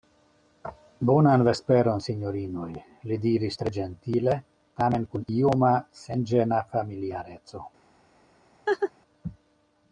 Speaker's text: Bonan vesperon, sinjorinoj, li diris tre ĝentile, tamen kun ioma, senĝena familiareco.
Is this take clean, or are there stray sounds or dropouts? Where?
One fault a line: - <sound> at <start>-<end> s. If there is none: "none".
- laugh at 8.7-8.9 s